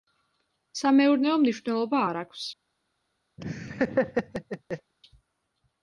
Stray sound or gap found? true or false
true